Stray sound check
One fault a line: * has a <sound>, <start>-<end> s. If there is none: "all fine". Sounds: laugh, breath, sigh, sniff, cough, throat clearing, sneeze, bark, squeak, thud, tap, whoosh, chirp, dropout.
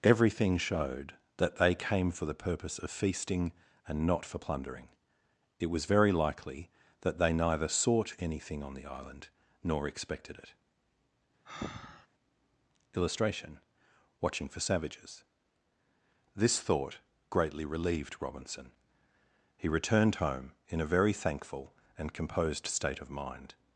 * has a breath, 11.5-12.1 s